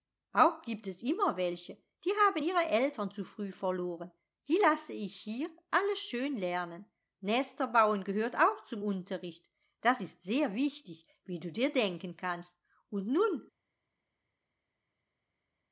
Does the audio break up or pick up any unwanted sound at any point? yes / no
no